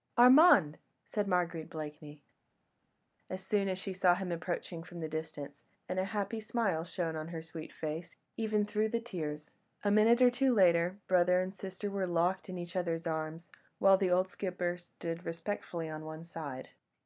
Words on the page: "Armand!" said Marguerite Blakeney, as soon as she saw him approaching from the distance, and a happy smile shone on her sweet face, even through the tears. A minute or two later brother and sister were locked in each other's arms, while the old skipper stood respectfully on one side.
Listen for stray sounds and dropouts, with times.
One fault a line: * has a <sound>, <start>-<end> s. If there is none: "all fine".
all fine